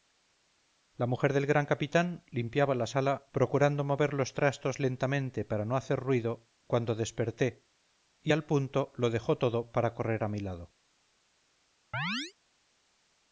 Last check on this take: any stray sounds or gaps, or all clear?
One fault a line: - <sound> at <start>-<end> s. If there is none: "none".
- chirp at 11.9-12.3 s